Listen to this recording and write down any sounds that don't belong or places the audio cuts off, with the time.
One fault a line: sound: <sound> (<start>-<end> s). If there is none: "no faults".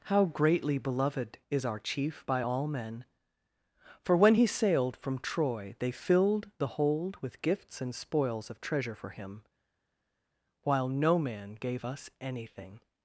no faults